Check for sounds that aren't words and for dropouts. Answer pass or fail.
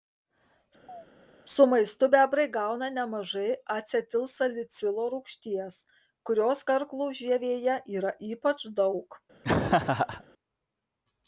fail